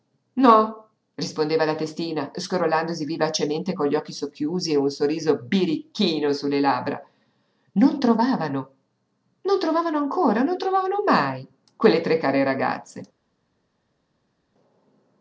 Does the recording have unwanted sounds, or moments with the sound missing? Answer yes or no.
no